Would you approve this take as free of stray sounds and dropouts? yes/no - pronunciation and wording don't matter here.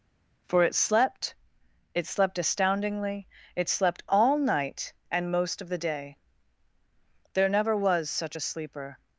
yes